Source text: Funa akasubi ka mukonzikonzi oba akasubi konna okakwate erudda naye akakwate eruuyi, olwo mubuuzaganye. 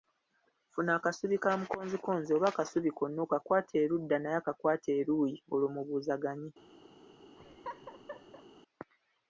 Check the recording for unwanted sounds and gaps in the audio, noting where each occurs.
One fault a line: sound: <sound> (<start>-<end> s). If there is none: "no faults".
sound: laugh (7.4-8.5 s)